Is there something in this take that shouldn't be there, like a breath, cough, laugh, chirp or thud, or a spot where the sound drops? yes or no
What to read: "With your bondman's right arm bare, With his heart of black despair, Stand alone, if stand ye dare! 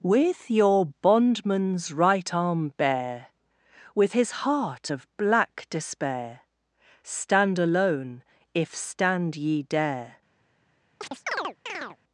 yes